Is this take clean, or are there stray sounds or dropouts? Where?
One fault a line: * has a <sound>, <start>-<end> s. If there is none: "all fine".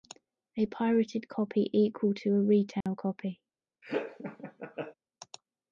* has a dropout, 2.8-2.9 s
* has a laugh, 3.8-4.9 s